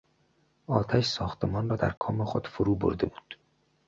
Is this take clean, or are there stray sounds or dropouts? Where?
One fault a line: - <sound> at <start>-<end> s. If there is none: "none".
- dropout at 2.0-2.0 s